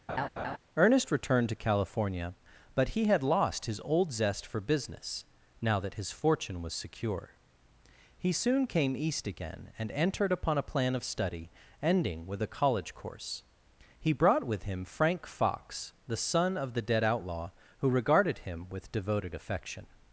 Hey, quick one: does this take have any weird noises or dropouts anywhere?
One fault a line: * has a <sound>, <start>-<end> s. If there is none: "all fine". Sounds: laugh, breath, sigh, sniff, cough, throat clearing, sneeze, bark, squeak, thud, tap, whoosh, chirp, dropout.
* has a laugh, 0.1-0.6 s